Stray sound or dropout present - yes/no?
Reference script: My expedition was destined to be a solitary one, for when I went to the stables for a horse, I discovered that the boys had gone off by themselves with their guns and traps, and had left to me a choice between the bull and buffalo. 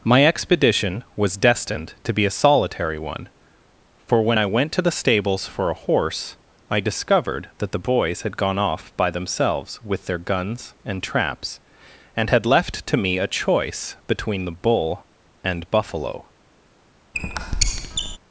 yes